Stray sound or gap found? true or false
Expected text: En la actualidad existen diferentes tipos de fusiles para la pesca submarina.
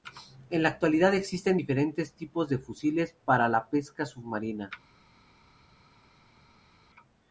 false